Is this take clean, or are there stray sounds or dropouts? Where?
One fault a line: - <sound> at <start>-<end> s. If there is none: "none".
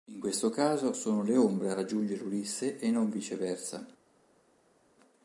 none